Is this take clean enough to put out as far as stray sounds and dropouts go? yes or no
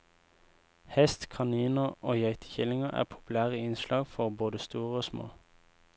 yes